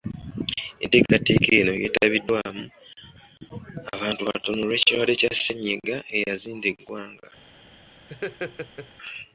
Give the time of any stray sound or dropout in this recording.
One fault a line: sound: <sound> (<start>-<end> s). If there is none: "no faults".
sound: laugh (8.1-8.9 s)